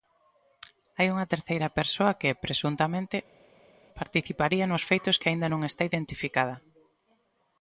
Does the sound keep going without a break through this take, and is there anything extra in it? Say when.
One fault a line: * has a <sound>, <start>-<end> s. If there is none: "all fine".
all fine